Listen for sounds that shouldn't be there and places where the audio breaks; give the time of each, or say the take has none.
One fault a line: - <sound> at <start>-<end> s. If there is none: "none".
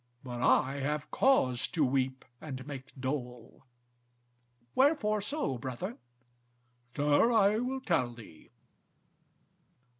none